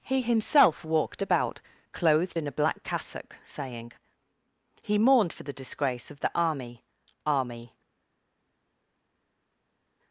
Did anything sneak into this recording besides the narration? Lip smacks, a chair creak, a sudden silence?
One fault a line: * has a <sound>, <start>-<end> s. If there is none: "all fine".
all fine